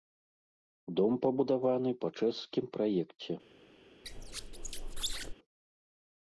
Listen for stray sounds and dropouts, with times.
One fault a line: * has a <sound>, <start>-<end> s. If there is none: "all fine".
* has a squeak, 4.0-5.3 s